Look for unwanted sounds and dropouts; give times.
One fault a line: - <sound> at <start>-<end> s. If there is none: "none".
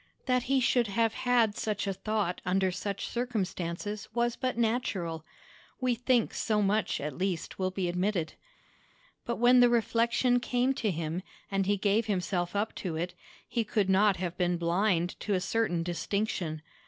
none